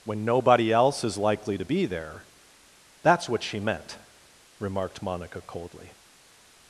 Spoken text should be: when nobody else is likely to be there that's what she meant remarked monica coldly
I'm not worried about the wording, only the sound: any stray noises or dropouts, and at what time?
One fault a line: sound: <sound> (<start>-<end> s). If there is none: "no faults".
no faults